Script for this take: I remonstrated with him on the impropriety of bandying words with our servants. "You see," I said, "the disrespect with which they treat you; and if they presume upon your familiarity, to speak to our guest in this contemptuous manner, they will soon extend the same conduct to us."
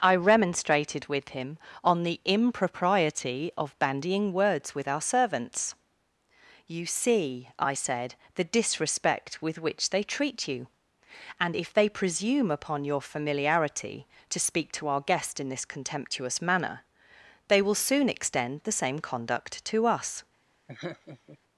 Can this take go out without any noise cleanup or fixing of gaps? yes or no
no